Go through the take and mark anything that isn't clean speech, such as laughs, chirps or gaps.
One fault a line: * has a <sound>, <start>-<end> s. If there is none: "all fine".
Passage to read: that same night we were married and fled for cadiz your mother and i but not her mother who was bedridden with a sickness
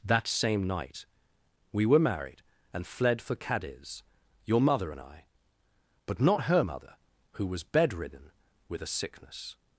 all fine